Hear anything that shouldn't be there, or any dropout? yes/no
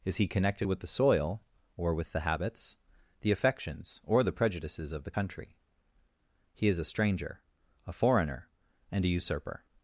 no